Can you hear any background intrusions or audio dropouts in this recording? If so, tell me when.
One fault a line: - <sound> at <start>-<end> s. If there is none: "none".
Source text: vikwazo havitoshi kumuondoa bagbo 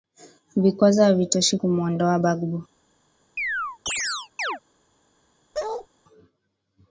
- chirp at 3.4-4.6 s
- bark at 5.5-5.9 s